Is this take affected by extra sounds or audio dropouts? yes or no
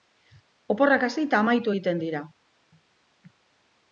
no